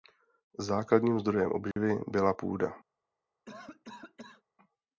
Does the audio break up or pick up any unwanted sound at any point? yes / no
yes